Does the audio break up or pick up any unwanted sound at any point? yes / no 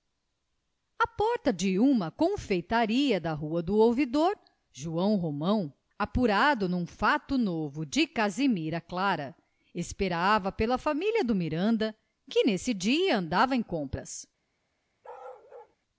yes